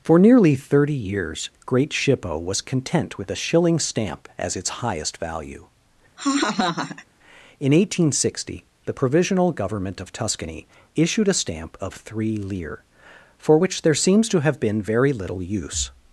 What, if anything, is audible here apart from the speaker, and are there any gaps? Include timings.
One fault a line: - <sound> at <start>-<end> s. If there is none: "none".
- laugh at 6.2-7.1 s